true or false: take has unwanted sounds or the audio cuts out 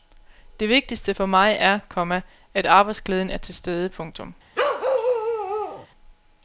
true